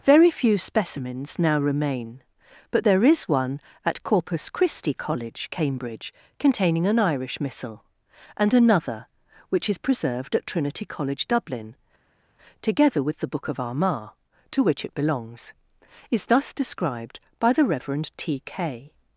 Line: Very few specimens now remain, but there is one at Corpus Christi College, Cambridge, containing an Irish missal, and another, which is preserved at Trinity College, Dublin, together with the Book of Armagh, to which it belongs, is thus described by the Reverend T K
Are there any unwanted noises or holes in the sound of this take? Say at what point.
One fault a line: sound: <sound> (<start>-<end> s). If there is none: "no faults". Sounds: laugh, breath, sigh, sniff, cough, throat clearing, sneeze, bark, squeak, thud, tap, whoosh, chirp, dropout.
no faults